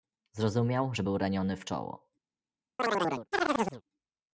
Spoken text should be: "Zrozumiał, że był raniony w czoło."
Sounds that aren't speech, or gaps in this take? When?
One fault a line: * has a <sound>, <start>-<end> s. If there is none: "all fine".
* has a chirp, 2.8-3.8 s